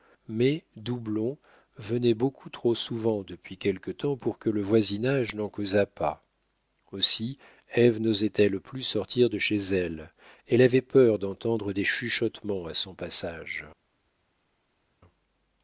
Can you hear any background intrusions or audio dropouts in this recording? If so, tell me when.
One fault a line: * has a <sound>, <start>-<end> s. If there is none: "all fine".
all fine